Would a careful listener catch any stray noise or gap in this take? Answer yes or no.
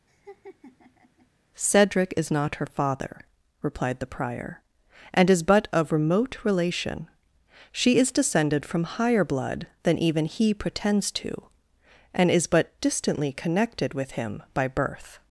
yes